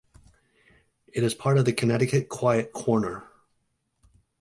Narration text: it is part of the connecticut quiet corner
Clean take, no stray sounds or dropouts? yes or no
yes